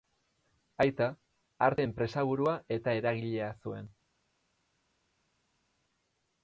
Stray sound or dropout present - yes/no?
no